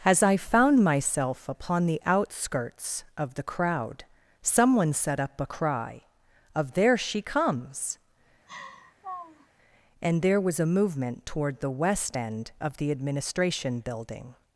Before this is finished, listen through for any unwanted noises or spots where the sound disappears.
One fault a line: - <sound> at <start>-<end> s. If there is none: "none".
- laugh at 8.5-9.5 s